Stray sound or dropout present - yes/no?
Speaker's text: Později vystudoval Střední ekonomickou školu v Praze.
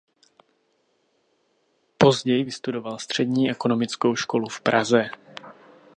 no